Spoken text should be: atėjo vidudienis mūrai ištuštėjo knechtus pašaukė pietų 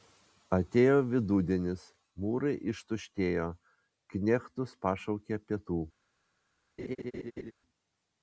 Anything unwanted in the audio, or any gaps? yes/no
yes